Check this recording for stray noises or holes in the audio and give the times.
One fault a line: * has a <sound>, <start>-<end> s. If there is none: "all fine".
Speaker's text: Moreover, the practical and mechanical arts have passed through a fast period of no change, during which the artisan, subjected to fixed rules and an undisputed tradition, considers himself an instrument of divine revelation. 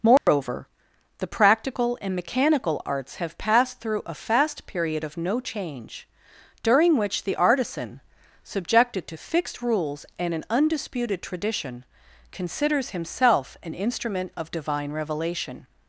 * has a dropout, 0.2-0.3 s